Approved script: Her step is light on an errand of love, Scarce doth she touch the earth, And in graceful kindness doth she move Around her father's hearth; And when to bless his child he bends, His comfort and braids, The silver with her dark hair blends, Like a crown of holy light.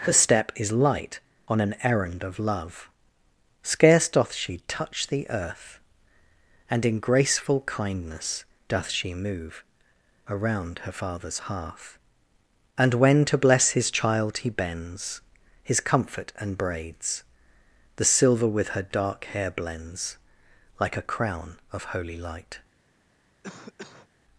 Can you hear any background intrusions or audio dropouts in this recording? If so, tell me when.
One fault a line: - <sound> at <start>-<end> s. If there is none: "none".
- cough at 23.4-24.1 s